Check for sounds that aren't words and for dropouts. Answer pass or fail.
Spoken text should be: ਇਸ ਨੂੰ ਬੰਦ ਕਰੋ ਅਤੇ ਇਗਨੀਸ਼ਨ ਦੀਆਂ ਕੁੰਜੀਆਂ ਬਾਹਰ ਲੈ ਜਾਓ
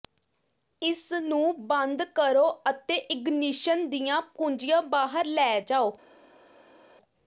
pass